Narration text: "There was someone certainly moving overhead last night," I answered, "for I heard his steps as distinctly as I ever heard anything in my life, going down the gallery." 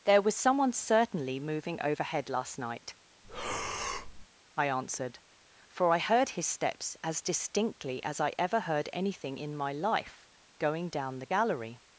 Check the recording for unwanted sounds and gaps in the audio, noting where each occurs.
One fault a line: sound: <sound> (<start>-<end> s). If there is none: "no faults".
sound: breath (3.2-4.3 s)